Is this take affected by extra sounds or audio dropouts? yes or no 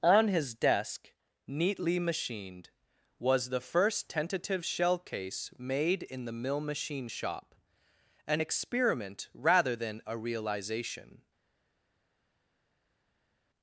no